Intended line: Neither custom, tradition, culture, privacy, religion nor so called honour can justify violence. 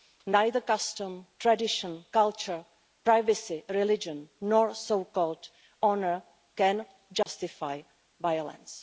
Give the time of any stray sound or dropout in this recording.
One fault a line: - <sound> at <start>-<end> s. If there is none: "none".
- dropout at 7.2-7.3 s